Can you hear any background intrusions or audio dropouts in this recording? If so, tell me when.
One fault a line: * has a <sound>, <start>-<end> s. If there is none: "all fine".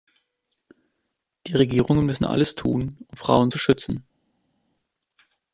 all fine